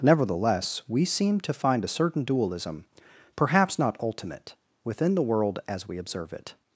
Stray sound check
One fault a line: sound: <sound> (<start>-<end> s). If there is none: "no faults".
no faults